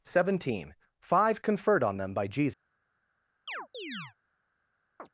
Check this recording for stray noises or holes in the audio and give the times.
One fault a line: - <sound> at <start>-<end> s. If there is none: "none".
- chirp at 3.5-4.1 s
- chirp at 5.0-5.1 s